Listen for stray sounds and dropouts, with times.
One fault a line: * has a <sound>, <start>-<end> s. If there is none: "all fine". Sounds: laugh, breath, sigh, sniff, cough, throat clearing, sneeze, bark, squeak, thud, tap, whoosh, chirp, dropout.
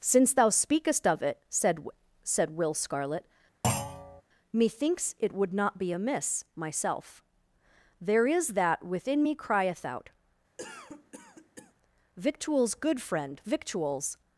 * has a thud, 3.6-4.2 s
* has a cough, 10.6-11.7 s